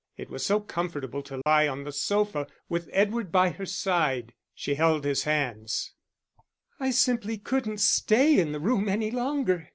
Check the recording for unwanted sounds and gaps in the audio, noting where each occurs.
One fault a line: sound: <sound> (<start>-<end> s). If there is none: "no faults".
sound: dropout (1.4-1.5 s)